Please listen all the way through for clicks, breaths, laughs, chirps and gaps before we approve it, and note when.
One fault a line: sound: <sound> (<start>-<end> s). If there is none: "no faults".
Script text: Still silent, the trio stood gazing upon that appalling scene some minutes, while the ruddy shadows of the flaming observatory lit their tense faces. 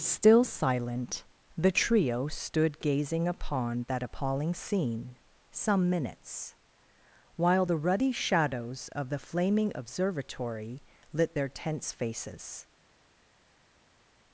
no faults